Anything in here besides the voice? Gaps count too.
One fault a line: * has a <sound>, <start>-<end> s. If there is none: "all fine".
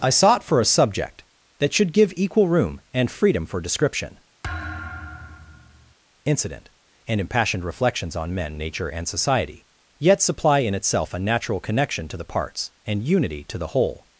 * has a thud, 4.4-5.9 s